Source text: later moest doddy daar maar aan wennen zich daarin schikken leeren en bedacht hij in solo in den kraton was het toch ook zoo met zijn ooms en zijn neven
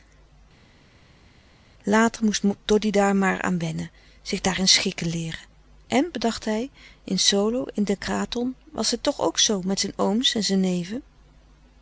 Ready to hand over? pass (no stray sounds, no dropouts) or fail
pass